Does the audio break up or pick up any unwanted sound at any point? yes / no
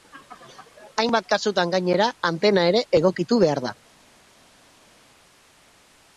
no